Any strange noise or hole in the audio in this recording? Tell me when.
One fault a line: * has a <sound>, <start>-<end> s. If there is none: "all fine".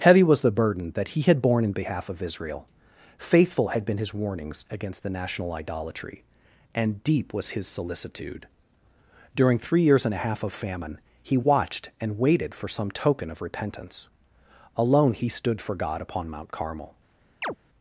* has a chirp, 17.4-17.6 s